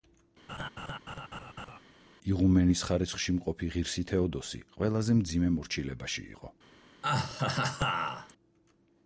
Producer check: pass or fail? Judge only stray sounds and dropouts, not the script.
fail